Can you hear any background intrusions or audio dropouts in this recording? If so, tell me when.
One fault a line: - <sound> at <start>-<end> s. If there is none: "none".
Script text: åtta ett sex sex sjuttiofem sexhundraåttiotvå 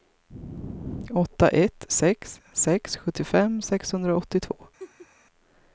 - laugh at 4.8-5.1 s